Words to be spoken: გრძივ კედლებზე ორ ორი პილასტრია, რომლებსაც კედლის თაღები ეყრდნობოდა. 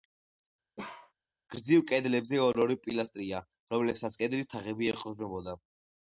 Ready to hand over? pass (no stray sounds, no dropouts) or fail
fail